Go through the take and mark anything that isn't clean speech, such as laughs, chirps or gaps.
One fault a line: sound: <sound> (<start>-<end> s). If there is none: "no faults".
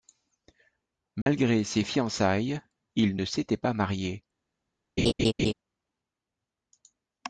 sound: dropout (1.2-1.3 s)
sound: laugh (5.0-5.5 s)